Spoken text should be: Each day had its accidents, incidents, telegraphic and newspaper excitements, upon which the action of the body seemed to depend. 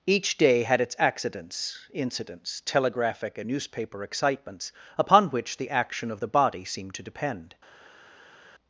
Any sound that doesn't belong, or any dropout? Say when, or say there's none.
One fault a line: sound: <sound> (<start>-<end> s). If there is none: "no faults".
no faults